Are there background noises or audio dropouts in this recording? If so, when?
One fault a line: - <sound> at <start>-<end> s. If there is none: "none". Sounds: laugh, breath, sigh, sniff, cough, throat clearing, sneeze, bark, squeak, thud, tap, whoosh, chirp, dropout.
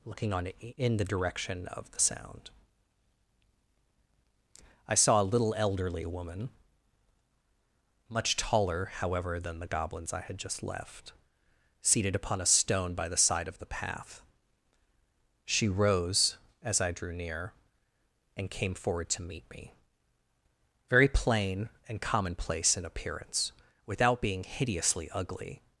none